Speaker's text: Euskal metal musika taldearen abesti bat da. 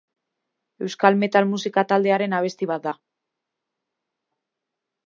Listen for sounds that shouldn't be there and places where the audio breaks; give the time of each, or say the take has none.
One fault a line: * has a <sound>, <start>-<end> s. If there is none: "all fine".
all fine